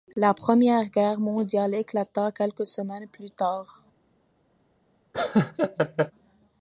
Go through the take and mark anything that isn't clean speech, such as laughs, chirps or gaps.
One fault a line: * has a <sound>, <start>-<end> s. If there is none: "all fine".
* has a laugh, 5.1-6.1 s